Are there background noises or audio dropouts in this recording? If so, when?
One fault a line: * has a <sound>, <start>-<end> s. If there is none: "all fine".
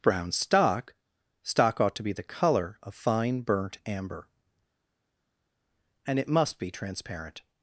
all fine